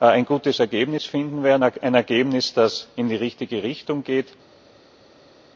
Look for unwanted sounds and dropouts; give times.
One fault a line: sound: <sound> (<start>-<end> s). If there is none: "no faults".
no faults